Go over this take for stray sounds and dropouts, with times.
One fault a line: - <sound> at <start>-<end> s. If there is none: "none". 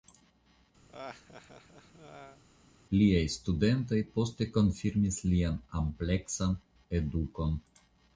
- laugh at 0.9-2.4 s